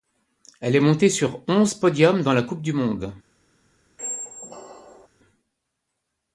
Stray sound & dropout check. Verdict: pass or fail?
fail